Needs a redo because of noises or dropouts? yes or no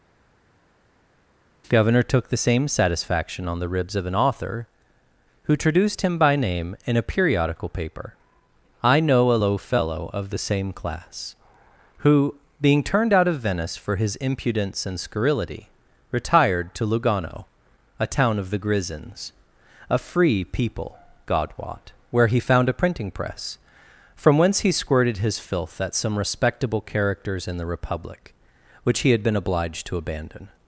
no